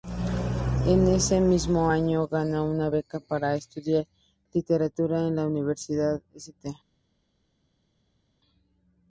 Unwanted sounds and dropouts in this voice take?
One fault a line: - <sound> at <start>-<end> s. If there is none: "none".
none